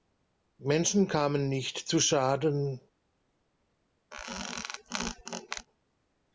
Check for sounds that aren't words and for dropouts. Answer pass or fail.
fail